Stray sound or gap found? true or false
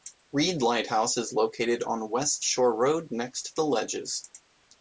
false